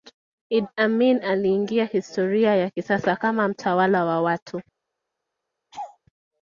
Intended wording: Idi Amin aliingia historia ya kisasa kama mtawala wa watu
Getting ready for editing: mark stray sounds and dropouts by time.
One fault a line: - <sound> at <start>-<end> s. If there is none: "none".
- laugh at 5.7-6.0 s